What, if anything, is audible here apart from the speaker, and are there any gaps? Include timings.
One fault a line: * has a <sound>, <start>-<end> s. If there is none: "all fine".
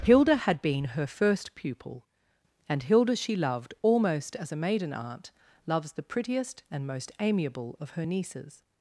all fine